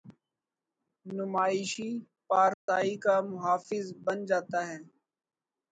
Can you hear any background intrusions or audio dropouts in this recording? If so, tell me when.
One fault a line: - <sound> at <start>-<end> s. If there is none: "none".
- dropout at 2.5-2.7 s